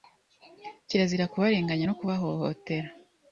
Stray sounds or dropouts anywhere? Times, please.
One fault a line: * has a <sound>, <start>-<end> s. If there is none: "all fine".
all fine